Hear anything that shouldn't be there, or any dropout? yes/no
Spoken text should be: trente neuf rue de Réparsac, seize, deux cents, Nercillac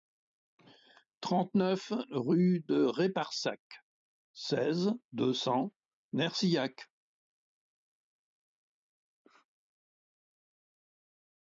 no